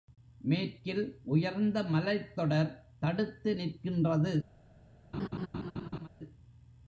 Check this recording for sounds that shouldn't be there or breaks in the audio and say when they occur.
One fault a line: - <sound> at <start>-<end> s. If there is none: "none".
- laugh at 5.1-6.1 s